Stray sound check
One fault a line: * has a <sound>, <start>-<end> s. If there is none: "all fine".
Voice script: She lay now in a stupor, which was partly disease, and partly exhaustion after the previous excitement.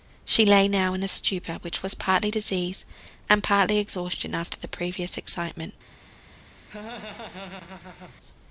* has a laugh, 6.7-8.2 s